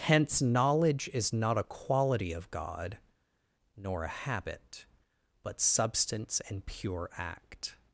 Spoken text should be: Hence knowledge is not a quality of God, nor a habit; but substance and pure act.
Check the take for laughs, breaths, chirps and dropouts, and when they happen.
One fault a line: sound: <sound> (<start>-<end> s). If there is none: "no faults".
no faults